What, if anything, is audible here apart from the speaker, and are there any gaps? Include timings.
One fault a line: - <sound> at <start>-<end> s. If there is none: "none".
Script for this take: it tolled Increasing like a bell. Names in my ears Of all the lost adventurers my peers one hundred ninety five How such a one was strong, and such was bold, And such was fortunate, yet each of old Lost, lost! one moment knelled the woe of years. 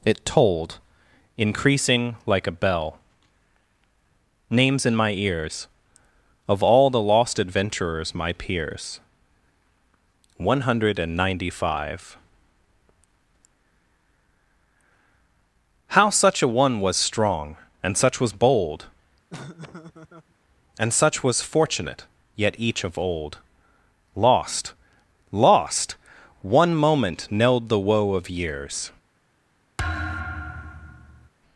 - laugh at 19.3-20.3 s
- thud at 29.8-31.3 s